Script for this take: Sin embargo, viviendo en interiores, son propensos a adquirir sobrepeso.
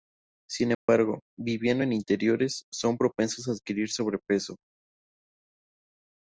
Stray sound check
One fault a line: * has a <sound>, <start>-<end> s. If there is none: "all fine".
* has a dropout, 0.7-0.9 s